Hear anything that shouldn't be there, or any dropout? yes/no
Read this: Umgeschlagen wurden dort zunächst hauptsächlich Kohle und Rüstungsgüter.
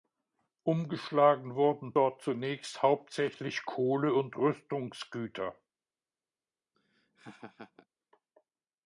yes